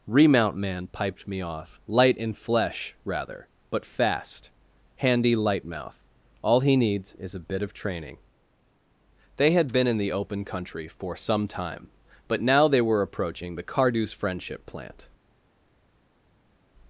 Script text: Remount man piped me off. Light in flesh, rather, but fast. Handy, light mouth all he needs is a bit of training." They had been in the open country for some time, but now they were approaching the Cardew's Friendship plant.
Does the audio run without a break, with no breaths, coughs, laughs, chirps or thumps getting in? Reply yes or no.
yes